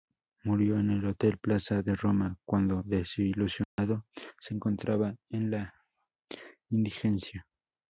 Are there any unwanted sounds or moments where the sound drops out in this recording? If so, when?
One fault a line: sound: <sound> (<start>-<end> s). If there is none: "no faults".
sound: dropout (3.6-3.8 s)